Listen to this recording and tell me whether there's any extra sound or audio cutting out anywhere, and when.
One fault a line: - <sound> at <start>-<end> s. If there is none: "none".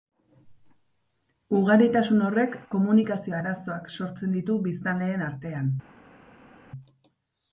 none